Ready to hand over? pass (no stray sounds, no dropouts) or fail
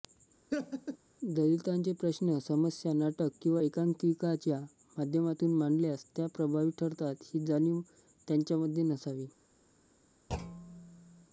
fail